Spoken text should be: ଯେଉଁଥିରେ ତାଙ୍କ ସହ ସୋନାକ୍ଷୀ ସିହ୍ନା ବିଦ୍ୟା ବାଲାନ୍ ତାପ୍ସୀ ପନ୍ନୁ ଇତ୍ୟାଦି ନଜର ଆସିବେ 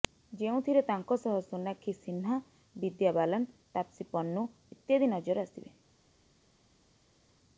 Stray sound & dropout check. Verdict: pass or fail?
pass